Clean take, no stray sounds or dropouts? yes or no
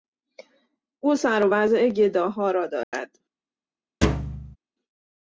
no